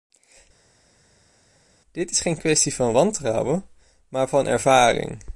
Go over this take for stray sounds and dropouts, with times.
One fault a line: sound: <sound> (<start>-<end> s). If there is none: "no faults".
no faults